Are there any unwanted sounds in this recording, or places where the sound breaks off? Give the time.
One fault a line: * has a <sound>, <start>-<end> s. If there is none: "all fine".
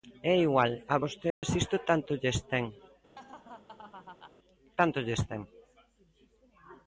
* has a dropout, 1.3-1.4 s
* has a laugh, 3.1-4.3 s